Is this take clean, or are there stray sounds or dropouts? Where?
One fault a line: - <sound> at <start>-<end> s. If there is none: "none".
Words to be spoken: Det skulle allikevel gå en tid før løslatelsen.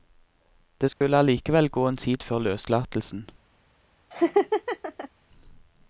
- dropout at 0.9-1.0 s
- laugh at 4.1-5.1 s